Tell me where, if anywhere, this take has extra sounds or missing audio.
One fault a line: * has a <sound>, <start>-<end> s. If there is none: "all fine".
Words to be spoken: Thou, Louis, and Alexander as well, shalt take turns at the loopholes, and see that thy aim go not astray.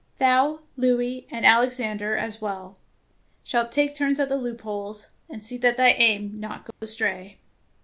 * has a dropout, 6.7-6.8 s